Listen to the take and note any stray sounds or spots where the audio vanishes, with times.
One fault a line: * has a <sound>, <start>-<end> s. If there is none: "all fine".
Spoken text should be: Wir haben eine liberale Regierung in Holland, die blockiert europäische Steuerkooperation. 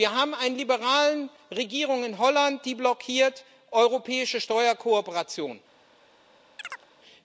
* has a chirp, 6.6-6.9 s